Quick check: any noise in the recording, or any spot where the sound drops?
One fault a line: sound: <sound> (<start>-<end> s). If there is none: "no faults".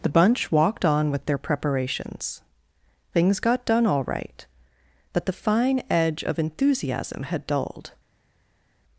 no faults